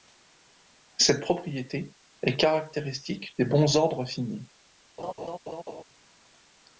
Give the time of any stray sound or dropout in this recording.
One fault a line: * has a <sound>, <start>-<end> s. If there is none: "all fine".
* has a laugh, 5.0-5.8 s